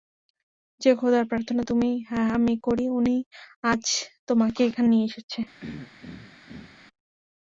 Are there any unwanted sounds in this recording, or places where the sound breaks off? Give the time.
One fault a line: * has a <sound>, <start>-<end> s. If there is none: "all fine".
* has a throat clearing, 5.6-6.8 s